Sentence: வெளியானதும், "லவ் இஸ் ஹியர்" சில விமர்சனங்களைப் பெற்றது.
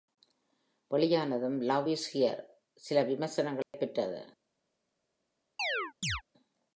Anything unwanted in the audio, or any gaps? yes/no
yes